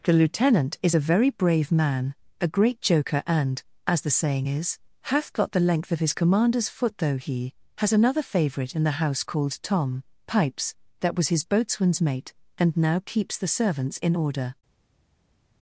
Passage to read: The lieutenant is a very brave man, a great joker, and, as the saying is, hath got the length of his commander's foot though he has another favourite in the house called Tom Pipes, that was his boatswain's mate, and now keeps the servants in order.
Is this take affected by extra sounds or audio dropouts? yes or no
no